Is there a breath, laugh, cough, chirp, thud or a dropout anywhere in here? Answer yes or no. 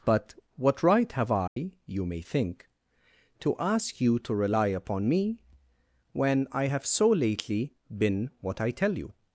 yes